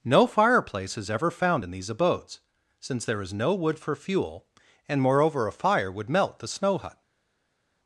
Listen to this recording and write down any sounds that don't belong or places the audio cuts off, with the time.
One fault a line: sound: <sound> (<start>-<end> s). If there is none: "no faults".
no faults